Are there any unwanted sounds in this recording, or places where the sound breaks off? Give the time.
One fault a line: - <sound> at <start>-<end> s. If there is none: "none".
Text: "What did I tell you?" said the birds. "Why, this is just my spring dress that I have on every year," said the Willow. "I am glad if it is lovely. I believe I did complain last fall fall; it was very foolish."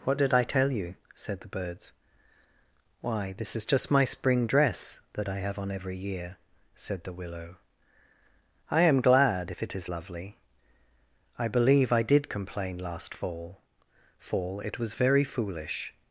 none